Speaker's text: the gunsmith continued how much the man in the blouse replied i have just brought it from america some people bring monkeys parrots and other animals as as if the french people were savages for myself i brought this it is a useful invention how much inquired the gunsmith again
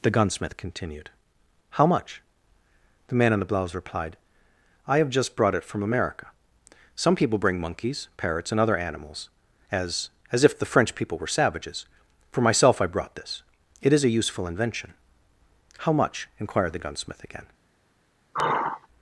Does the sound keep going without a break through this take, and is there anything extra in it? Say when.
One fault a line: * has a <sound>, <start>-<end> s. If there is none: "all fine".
* has a sigh, 18.3-18.9 s